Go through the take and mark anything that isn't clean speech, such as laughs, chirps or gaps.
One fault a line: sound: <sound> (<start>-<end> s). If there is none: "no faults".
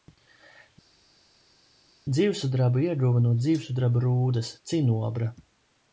no faults